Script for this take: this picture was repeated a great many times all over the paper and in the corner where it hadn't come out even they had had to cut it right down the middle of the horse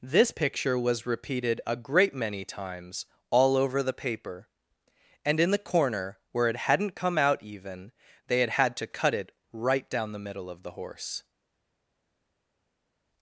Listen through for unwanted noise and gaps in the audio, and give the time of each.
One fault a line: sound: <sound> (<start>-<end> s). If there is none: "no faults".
no faults